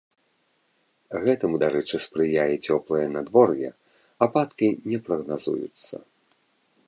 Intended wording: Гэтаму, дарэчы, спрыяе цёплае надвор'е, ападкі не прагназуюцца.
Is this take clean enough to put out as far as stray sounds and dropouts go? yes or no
yes